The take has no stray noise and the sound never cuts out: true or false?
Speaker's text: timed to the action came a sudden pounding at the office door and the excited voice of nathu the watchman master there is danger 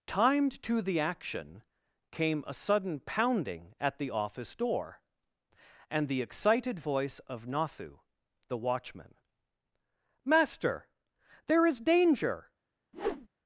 false